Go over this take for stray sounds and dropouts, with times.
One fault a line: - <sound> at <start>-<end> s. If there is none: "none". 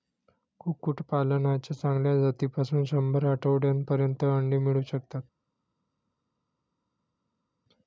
none